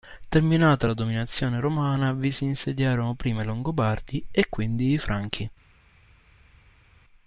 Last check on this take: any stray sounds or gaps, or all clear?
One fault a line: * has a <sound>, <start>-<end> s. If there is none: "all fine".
all fine